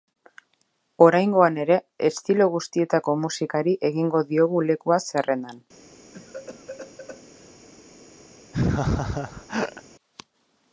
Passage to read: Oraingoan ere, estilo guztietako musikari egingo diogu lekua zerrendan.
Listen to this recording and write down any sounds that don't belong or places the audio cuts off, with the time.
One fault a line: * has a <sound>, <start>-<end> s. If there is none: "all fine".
* has a cough, 6.1-7.5 s
* has a laugh, 8.5-9.8 s